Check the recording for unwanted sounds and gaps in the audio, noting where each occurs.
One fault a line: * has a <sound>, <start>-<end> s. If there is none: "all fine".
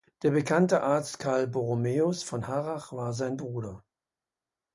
all fine